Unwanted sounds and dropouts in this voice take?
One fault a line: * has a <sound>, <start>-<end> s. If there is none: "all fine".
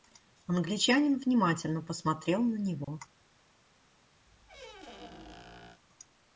* has a dropout, 2.8-2.9 s
* has a squeak, 4.3-5.8 s